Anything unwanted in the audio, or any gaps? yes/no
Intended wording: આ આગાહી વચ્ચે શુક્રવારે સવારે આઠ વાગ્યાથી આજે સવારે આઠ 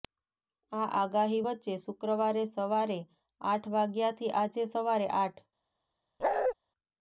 yes